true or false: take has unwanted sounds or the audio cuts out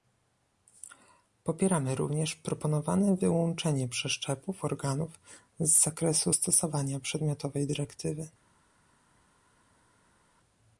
false